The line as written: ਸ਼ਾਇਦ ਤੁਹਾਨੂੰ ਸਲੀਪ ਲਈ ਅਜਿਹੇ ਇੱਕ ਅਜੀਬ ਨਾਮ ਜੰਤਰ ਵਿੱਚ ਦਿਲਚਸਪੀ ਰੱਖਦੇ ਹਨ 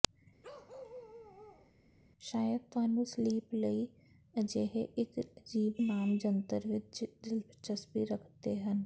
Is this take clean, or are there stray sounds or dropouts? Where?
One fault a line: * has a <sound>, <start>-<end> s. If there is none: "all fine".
* has a bark, 0.4-1.7 s